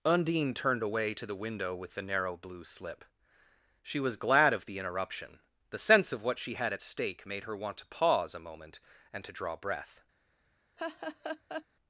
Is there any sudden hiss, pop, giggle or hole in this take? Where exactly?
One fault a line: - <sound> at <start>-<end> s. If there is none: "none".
- laugh at 10.8-11.7 s